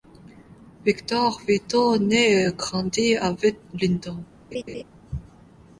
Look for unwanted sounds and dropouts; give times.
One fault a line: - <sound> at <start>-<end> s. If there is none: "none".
- laugh at 4.5-4.8 s